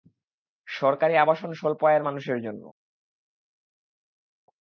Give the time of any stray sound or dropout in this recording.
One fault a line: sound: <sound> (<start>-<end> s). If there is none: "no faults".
no faults